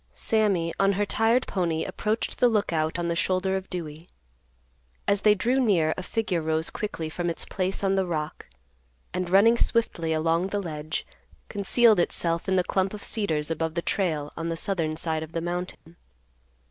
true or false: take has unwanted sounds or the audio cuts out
true